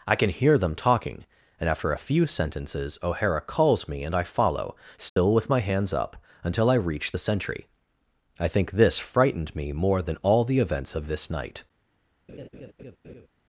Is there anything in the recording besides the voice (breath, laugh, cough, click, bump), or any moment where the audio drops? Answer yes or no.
yes